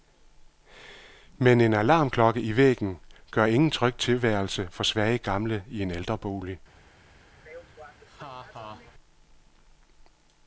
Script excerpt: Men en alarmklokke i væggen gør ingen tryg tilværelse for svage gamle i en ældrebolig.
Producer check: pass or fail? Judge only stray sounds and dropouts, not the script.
fail